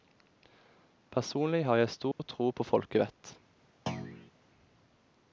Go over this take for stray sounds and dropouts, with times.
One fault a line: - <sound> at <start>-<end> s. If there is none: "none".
- dropout at 2.1-2.2 s
- thud at 3.9-4.3 s